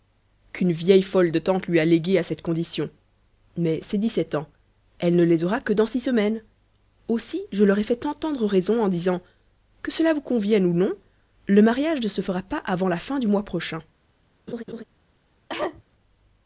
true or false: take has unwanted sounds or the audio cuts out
true